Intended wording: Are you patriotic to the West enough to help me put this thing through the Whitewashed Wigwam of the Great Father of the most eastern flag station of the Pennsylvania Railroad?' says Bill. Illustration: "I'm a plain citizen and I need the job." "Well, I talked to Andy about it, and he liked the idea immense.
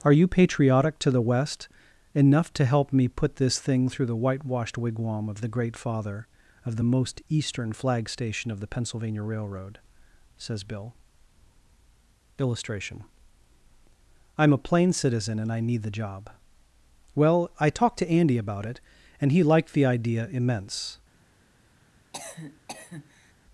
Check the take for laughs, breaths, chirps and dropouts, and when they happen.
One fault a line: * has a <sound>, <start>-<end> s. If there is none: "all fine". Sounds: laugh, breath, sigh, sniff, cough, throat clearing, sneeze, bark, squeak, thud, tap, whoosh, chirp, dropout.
* has a cough, 22.1-23.3 s